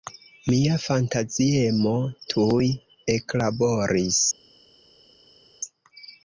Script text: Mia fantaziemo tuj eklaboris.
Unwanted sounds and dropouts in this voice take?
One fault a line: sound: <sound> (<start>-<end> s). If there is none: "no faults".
no faults